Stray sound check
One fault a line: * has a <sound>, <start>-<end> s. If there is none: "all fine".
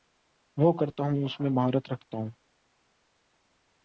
all fine